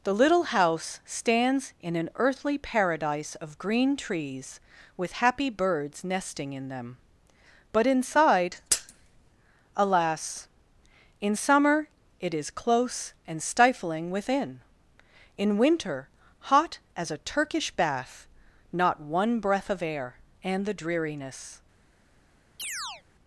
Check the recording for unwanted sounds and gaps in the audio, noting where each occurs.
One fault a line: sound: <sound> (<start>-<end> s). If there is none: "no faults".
sound: chirp (22.6-23.0 s)